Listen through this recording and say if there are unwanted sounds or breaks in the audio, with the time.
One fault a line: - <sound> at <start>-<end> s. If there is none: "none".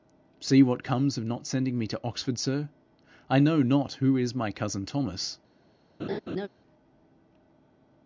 - laugh at 6.0-6.5 s